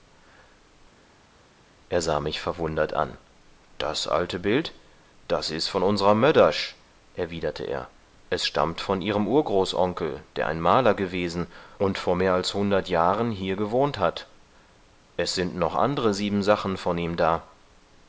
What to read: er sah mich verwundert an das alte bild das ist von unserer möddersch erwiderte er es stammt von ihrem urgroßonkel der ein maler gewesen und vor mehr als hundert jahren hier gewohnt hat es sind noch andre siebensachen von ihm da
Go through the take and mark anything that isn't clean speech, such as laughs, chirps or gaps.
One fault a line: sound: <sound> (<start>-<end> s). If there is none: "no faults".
no faults